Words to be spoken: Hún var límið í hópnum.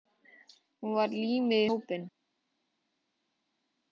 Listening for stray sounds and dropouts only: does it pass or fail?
pass